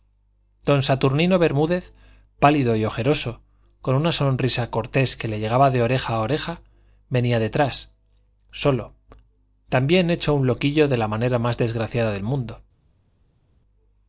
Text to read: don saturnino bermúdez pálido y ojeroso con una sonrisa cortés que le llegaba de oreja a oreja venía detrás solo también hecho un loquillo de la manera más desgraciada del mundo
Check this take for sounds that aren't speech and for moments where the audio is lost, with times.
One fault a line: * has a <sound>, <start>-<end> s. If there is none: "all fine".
all fine